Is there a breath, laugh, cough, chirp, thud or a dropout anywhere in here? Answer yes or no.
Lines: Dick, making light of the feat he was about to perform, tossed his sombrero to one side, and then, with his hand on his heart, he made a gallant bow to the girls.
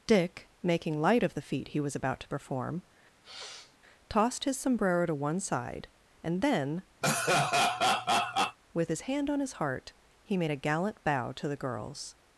yes